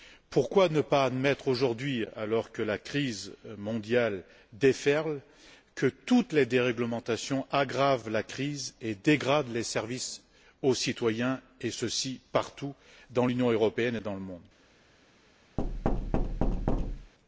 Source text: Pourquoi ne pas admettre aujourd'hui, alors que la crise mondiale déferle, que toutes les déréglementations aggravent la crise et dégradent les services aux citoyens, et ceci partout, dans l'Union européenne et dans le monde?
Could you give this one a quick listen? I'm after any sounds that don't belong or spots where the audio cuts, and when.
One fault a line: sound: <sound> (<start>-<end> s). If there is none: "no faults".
sound: thud (15.6-17.1 s)